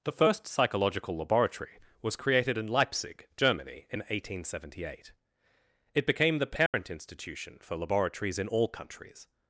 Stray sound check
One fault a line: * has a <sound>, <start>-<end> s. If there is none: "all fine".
* has a dropout, 6.7-6.7 s